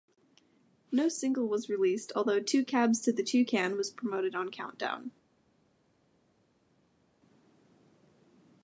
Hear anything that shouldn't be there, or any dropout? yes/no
no